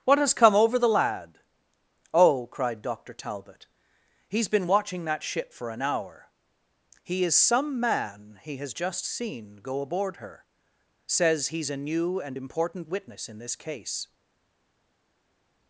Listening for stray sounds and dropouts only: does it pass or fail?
pass